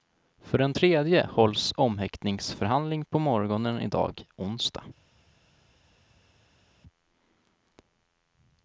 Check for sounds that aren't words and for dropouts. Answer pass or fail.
pass